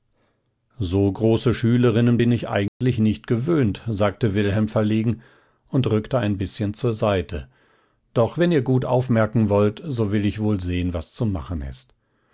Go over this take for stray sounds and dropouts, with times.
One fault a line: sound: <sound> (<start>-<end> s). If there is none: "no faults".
sound: dropout (2.7-2.8 s)